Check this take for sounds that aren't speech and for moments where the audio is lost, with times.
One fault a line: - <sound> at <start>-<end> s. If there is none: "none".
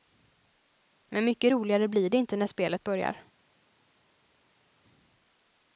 none